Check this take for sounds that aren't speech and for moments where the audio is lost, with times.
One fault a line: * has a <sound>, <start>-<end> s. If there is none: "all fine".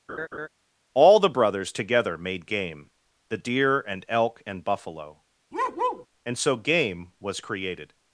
* has a laugh, 0.1-0.5 s
* has a bark, 5.5-6.1 s